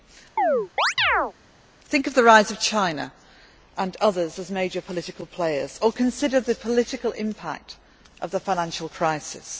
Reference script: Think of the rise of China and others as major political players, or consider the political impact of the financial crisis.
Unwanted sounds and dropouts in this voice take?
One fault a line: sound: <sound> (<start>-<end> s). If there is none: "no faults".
sound: chirp (0.4-1.3 s)